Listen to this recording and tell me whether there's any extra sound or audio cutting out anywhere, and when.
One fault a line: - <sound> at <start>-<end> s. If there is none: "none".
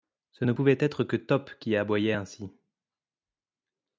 none